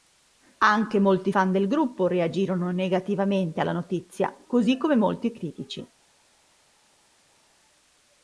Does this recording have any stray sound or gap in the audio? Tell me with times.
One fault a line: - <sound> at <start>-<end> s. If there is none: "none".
none